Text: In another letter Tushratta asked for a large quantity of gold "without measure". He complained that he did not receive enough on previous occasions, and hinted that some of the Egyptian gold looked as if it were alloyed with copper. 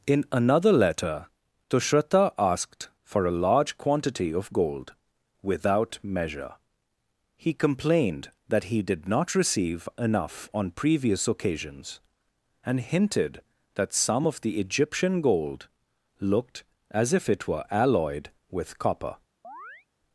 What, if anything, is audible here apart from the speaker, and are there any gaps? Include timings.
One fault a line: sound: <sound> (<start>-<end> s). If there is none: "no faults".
sound: chirp (19.4-19.9 s)